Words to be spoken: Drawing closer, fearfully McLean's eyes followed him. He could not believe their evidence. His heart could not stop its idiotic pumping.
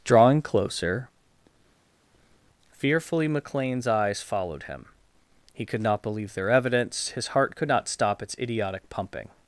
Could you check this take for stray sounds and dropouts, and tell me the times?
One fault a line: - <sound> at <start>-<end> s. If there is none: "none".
none